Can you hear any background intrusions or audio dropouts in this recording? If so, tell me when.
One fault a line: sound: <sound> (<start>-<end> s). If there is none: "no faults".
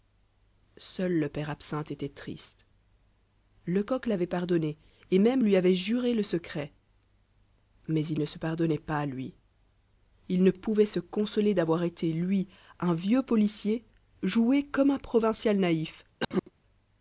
sound: cough (16.2-16.5 s)